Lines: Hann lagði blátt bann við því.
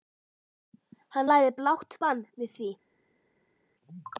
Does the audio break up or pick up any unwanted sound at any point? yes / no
no